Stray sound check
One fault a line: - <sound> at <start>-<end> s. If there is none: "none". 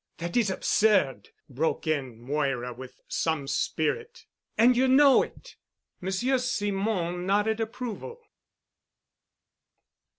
none